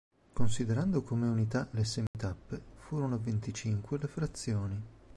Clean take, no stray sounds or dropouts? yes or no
no